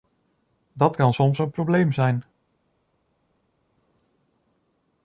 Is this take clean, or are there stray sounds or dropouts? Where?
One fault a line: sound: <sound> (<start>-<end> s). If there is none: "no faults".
no faults